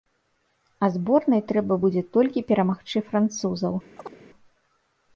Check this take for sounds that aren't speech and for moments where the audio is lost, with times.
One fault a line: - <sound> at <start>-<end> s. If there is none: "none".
- chirp at 4.0-4.2 s